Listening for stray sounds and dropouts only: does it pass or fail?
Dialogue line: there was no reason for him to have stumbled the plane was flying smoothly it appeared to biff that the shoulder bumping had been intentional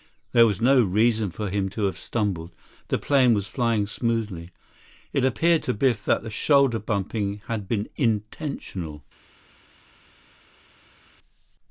pass